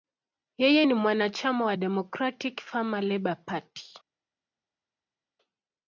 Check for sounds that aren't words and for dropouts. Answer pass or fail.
pass